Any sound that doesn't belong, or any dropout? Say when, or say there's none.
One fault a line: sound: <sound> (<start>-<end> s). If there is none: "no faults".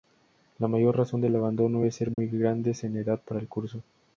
sound: dropout (2.1-2.2 s)